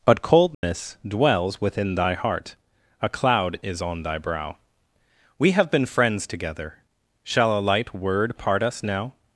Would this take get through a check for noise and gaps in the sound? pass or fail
fail